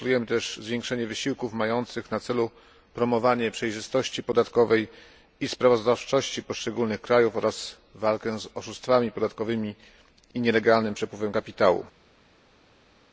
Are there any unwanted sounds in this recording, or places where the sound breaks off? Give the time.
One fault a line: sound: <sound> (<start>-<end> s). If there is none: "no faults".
no faults